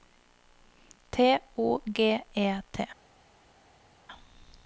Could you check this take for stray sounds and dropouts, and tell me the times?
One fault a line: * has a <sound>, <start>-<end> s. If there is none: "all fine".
all fine